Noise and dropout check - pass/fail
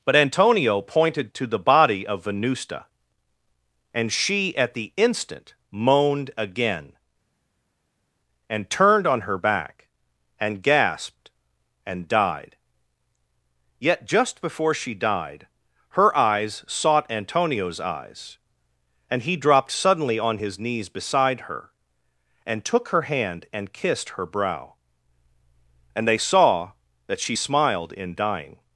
pass